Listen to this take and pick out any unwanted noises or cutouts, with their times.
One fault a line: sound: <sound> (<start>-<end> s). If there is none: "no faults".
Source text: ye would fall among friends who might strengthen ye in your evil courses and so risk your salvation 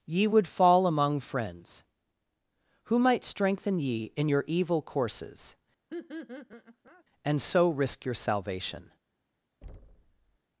sound: laugh (5.9-7.0 s)
sound: thud (9.6-10.4 s)